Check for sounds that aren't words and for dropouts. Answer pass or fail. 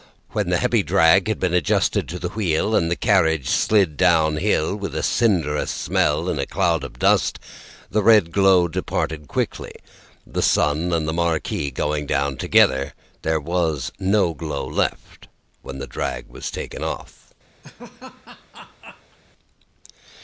fail